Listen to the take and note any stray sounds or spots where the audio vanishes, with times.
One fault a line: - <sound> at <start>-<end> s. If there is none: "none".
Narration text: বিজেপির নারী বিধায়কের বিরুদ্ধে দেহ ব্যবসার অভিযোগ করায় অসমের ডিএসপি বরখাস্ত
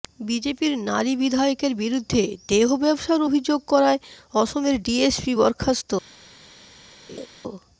- laugh at 7.1-7.3 s